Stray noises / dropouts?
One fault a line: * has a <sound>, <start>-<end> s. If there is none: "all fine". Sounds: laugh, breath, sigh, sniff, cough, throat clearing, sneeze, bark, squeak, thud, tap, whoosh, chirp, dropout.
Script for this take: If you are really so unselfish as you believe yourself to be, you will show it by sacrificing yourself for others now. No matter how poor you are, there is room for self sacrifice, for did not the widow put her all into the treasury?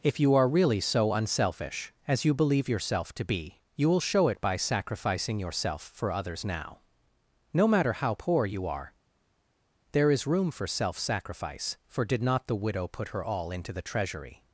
all fine